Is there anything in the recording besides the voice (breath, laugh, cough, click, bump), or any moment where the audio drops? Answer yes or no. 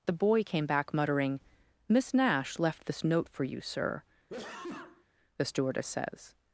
yes